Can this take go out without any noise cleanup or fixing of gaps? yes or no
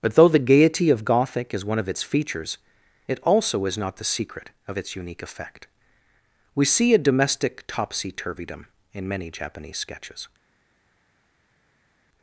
yes